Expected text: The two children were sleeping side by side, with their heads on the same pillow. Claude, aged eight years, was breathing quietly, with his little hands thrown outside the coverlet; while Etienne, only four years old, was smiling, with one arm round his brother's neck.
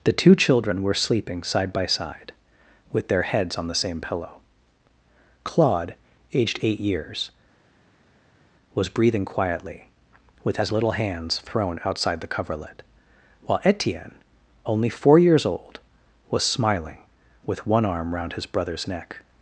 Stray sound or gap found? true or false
false